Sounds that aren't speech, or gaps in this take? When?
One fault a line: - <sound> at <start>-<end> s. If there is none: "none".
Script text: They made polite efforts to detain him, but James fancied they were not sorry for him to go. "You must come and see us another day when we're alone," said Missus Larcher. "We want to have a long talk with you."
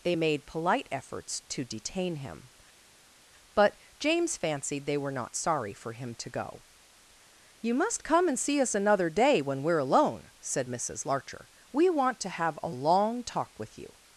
none